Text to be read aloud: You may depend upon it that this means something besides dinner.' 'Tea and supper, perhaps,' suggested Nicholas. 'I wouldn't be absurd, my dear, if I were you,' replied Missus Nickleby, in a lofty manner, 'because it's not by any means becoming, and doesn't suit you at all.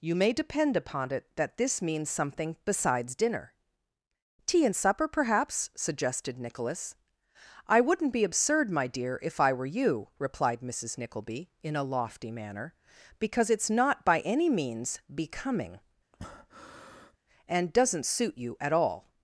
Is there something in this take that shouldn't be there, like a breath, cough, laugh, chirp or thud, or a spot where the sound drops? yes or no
yes